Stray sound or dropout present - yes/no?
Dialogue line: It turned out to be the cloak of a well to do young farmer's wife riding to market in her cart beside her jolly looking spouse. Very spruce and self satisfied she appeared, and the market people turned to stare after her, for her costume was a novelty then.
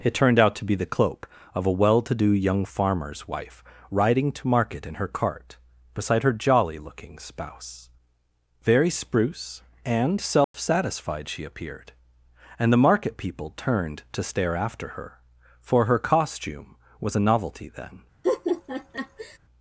yes